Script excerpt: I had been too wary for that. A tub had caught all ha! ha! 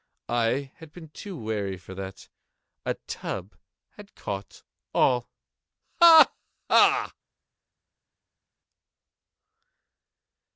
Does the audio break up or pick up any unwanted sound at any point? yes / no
no